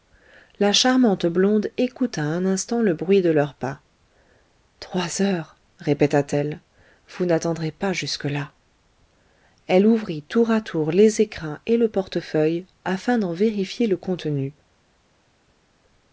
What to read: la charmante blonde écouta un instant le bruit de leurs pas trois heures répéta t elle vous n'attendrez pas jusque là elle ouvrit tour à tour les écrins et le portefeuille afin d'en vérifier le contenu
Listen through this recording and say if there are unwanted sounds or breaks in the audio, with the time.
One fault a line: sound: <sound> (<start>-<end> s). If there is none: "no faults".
no faults